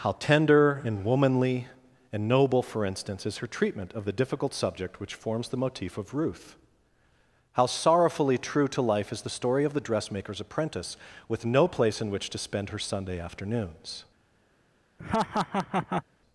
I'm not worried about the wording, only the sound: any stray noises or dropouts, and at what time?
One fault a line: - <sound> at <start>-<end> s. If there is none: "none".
- laugh at 15.0-16.0 s